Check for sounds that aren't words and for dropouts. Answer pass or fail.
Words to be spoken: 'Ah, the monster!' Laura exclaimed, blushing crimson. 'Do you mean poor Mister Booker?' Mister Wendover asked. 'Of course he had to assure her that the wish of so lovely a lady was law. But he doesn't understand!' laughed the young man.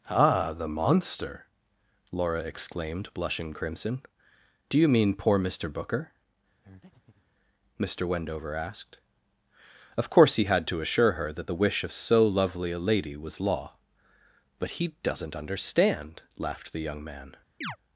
fail